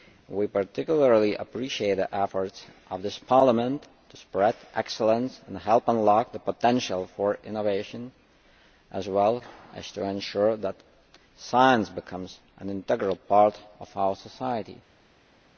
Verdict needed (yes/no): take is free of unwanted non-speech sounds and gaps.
yes